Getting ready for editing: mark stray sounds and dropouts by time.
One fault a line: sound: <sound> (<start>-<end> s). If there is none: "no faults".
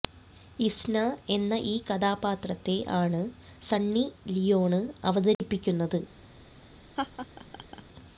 sound: dropout (5.3-5.4 s)
sound: laugh (7.0-7.8 s)